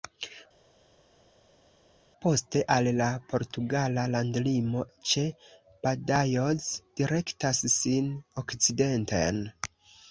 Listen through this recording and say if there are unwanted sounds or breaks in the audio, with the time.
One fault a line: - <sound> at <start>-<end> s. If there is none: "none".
none